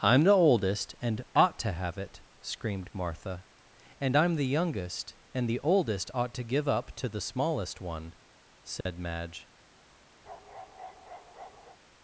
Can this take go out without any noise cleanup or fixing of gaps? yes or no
no